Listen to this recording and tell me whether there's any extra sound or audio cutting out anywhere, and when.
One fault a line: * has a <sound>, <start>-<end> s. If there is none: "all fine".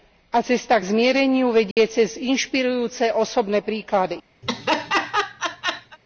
* has a dropout, 1.7-1.8 s
* has a laugh, 4.4-6.0 s